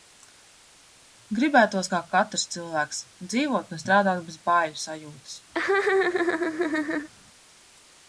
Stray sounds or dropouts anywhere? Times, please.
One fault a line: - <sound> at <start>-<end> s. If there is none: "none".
- laugh at 5.5-7.1 s